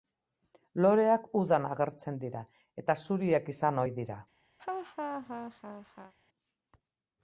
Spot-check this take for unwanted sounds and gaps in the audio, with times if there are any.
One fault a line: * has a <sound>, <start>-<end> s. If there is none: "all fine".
* has a laugh, 4.6-6.1 s